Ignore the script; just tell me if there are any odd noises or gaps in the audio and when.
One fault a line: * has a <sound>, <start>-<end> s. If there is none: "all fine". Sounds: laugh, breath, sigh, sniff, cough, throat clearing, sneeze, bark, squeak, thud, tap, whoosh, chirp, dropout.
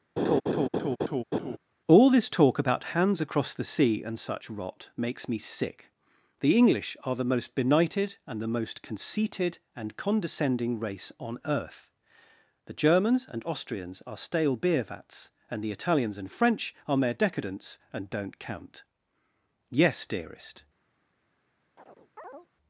* has a laugh, 0.2-1.6 s
* has a chirp, 21.8-22.5 s